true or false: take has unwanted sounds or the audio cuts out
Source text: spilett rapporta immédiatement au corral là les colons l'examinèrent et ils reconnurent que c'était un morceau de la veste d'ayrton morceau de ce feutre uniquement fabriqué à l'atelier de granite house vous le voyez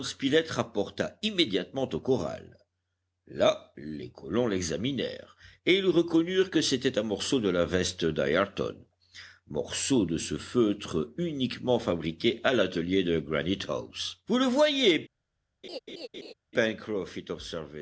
true